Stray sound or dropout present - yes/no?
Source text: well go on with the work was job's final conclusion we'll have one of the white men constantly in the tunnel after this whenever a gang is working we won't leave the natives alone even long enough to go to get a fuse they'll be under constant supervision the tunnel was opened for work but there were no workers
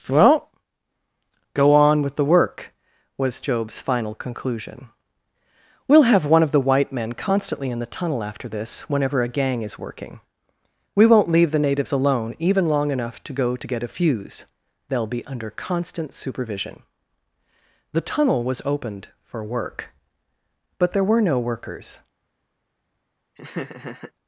yes